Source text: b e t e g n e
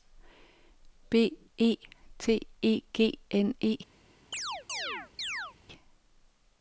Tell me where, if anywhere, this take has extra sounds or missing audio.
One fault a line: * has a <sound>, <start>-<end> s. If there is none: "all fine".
* has a chirp, 4.3-5.5 s